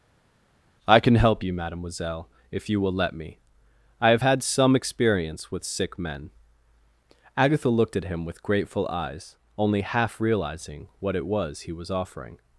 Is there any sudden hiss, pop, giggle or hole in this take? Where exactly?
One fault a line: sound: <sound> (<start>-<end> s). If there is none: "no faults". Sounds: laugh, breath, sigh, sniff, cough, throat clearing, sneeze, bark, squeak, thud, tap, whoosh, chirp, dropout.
no faults